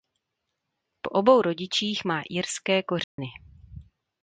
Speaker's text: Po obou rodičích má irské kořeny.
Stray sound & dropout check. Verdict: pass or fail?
fail